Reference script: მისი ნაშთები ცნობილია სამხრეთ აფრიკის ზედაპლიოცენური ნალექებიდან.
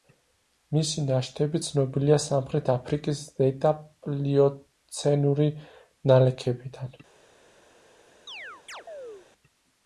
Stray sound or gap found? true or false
true